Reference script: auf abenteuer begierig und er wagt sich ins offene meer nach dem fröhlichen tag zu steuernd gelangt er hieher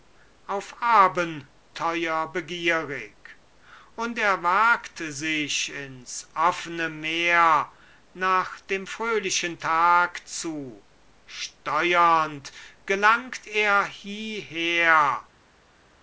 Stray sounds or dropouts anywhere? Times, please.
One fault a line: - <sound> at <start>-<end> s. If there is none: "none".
none